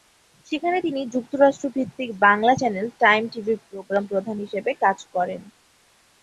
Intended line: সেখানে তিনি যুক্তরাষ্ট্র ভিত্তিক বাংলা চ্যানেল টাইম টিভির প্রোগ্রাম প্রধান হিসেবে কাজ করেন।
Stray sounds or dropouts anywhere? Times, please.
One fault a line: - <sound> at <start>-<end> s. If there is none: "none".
none